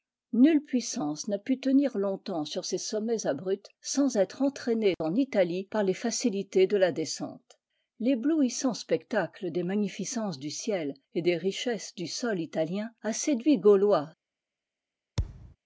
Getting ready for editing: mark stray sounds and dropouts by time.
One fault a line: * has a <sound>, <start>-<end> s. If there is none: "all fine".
* has a thud, 15.2-15.6 s